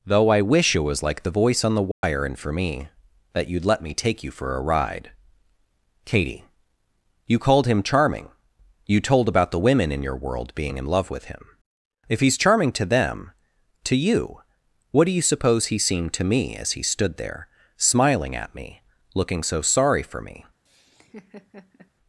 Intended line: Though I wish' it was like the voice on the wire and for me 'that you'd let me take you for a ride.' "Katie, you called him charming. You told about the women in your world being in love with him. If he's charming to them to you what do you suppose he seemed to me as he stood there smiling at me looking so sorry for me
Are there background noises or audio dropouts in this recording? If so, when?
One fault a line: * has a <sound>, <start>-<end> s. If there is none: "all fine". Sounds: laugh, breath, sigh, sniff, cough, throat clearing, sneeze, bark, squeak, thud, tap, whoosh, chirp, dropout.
* has a dropout, 1.9-2.0 s
* has a laugh, 20.7-21.9 s